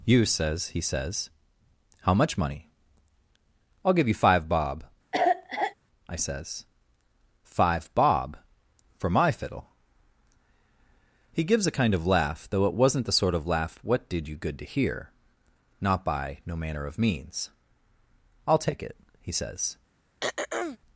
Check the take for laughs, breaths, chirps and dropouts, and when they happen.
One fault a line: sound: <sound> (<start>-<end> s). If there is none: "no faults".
sound: cough (5.1-5.7 s)
sound: throat clearing (20.2-20.8 s)